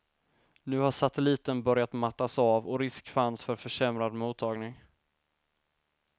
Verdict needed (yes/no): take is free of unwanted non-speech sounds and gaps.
yes